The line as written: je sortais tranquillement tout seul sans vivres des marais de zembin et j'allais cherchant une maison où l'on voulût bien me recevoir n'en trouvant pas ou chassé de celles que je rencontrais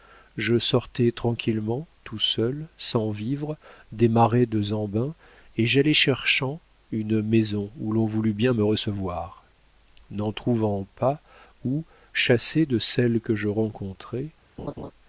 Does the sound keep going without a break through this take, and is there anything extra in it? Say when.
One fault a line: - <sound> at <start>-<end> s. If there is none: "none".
- laugh at 14.6-14.9 s